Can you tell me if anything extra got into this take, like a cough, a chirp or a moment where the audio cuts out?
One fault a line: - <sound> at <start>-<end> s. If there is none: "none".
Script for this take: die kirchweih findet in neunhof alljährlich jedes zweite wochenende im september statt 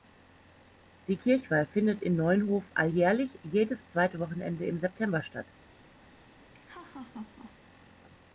- laugh at 6.5-7.6 s